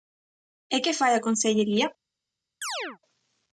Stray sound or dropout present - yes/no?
yes